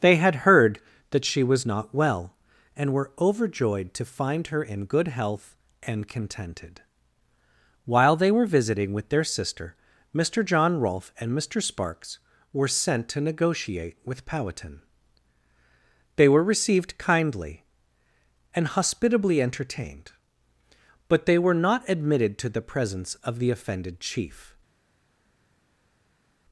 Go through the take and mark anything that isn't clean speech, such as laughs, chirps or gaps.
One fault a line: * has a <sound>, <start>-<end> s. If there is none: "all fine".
all fine